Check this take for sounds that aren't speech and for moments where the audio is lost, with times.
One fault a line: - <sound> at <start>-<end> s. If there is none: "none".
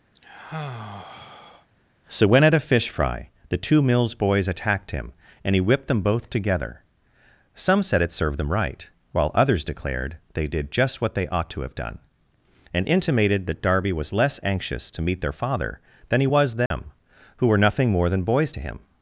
- sigh at 0.1-1.7 s
- dropout at 16.7-16.7 s